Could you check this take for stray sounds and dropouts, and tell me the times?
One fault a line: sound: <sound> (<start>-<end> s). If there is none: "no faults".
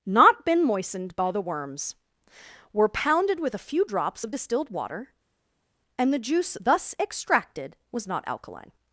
no faults